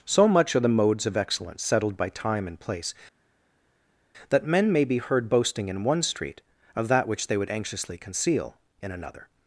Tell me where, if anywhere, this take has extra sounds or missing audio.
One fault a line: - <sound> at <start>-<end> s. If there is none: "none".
none